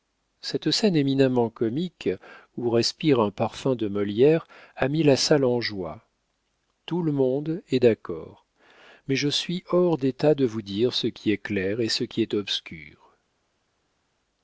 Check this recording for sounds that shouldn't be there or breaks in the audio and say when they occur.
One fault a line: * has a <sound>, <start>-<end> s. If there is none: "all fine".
all fine